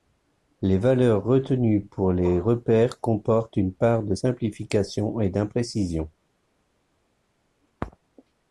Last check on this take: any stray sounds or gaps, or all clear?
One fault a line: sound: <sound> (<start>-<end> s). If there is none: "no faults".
no faults